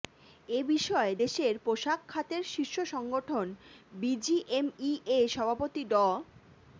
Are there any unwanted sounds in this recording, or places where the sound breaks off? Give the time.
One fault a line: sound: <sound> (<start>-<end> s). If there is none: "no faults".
no faults